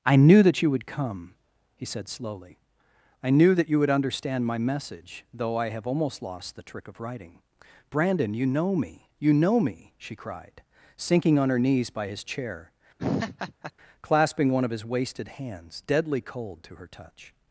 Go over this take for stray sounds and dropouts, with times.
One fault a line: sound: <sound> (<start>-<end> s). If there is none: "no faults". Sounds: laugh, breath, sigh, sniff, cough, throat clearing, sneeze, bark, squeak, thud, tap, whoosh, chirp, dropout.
sound: laugh (13.0-13.7 s)